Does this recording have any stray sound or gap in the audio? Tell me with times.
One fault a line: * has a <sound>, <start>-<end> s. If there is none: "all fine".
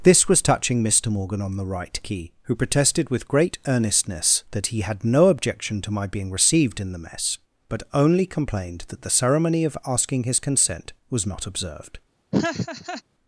* has a laugh, 12.3-13.0 s